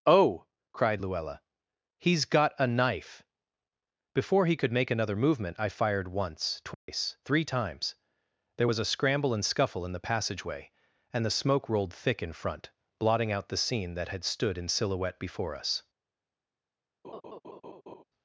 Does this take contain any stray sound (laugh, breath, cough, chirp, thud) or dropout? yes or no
yes